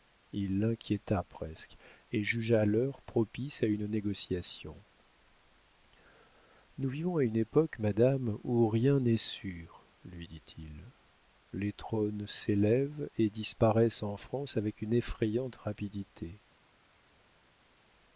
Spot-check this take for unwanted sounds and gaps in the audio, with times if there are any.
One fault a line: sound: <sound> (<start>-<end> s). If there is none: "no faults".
no faults